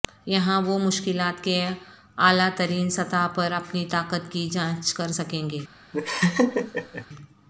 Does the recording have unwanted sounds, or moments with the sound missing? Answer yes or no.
yes